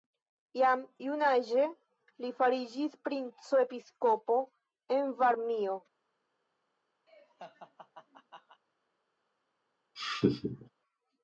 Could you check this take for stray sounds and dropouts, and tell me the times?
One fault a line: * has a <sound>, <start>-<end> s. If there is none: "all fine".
* has a laugh, 7.1-8.6 s
* has a laugh, 9.9-10.7 s